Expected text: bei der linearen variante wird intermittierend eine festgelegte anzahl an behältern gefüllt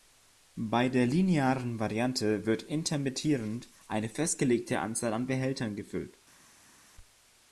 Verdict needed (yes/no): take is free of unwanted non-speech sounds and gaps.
yes